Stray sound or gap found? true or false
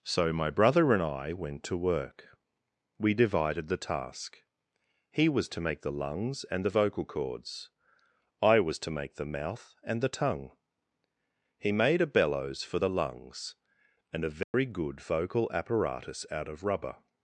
true